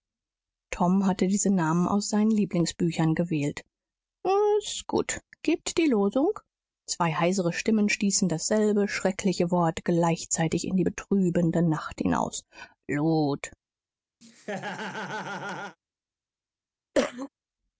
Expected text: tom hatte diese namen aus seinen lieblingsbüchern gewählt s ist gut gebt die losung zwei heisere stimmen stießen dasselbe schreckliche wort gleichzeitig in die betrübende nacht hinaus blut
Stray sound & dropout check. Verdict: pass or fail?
fail